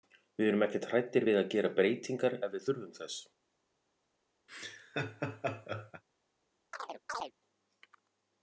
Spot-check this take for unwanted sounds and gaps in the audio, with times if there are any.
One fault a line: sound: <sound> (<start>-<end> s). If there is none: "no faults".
sound: laugh (4.5-6.0 s)
sound: chirp (6.7-7.3 s)